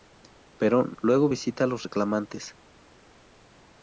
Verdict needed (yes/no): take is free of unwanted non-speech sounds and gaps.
yes